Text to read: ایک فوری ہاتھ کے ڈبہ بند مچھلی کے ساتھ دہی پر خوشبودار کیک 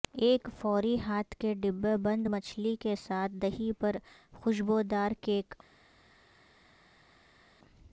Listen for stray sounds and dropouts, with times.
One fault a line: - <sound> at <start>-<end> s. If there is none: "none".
none